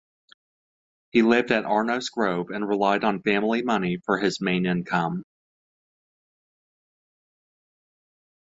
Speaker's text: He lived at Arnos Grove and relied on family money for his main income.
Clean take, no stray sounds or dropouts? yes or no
yes